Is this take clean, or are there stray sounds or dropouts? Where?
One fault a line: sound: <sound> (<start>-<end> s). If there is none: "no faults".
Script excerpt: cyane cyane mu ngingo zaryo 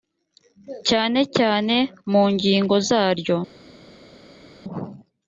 no faults